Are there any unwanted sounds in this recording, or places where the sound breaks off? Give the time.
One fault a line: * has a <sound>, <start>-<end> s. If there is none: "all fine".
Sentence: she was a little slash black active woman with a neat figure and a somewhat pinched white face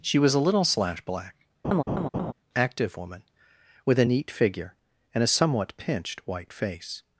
* has a laugh, 1.6-2.3 s